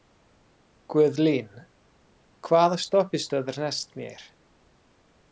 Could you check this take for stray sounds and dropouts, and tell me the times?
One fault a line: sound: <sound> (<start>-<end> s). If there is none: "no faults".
no faults